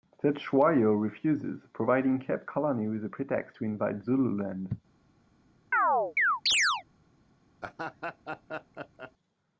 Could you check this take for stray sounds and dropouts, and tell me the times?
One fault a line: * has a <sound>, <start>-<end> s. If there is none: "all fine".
* has a chirp, 5.7-6.8 s
* has a laugh, 7.6-9.1 s